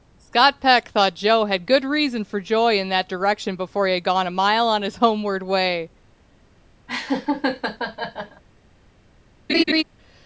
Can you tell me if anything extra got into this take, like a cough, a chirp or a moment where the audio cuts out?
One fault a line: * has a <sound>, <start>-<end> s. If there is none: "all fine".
* has a laugh, 6.9-8.4 s
* has a laugh, 9.5-9.8 s